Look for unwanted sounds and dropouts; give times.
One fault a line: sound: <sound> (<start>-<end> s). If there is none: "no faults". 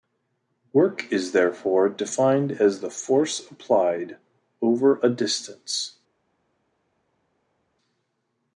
no faults